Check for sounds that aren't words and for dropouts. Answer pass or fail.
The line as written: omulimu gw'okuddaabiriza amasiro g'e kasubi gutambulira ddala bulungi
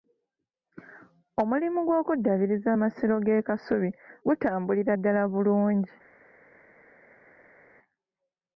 pass